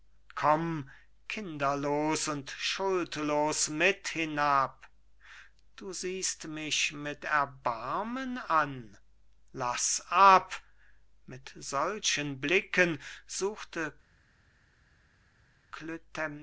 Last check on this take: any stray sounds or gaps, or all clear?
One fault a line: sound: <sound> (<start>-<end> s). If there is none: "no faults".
no faults